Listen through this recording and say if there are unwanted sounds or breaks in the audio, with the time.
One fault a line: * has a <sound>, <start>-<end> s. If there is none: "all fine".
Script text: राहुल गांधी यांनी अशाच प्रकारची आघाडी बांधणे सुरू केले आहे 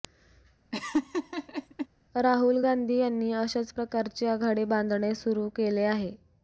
* has a laugh, 0.7-1.9 s